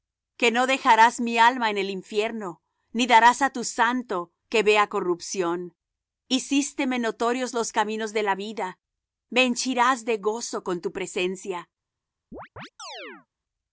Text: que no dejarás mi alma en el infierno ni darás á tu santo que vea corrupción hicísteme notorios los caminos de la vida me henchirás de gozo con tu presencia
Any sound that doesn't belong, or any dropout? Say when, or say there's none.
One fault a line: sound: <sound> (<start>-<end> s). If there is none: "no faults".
sound: chirp (12.3-13.3 s)